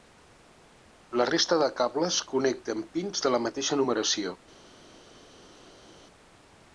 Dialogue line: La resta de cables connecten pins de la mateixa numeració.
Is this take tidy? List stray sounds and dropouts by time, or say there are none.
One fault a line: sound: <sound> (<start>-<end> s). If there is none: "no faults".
no faults